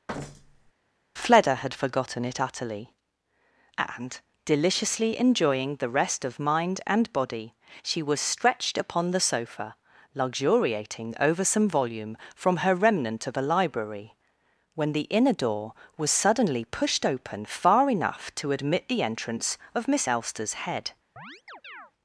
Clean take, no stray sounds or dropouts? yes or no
no